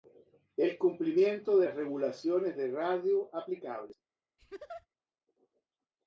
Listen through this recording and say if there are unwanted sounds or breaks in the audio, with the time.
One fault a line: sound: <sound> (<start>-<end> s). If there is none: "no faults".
sound: laugh (4.4-4.9 s)